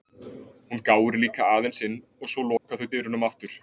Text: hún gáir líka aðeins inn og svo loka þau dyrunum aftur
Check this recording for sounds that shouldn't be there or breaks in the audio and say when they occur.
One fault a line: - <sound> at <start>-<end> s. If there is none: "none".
- dropout at 2.6-2.6 s